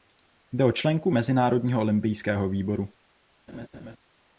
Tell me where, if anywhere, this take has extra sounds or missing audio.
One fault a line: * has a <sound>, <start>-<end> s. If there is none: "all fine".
* has a laugh, 3.5-4.0 s